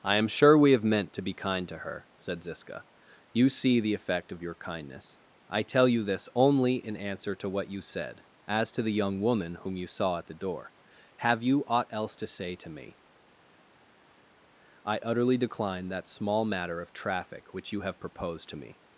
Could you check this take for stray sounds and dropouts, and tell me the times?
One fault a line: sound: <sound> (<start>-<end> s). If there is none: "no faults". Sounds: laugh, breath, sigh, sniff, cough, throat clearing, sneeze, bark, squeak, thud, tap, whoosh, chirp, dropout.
no faults